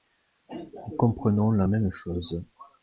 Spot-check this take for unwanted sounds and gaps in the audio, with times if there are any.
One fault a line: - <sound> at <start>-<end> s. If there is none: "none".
none